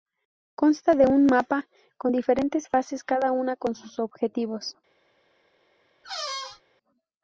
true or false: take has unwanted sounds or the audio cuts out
true